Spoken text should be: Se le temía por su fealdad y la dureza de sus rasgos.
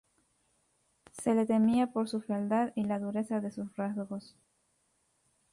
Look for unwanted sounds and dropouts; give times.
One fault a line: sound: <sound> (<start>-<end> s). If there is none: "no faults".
no faults